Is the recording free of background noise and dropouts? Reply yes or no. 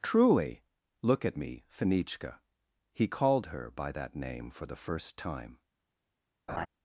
no